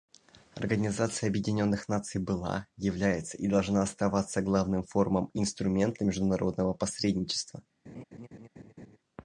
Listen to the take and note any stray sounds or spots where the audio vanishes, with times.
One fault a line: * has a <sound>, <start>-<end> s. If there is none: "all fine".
* has a laugh, 7.8-9.0 s